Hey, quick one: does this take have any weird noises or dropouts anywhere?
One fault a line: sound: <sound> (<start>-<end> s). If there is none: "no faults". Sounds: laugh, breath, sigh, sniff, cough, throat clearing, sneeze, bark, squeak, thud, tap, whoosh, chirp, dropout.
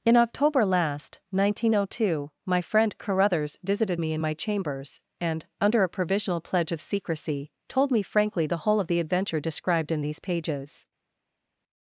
no faults